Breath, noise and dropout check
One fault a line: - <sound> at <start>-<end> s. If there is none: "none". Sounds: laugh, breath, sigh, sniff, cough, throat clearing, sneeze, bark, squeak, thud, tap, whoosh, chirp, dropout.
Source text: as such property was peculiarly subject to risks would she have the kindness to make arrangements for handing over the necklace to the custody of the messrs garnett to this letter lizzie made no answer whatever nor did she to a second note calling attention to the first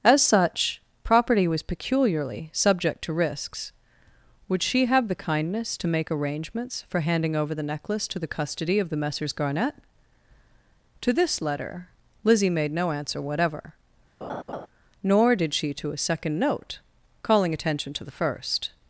- laugh at 14.2-14.7 s